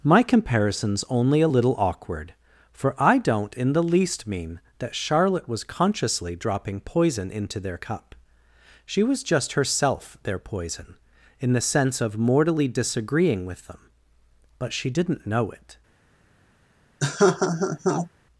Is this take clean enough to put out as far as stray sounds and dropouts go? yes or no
no